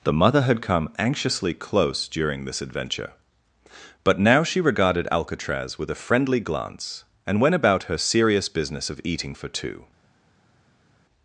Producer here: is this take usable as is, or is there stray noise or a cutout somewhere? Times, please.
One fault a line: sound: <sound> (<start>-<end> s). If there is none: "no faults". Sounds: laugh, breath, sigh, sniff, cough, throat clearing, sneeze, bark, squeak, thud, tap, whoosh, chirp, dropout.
no faults